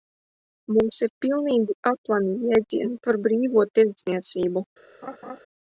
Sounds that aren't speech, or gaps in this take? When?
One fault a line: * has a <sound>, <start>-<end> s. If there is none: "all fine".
* has a laugh, 5.0-5.4 s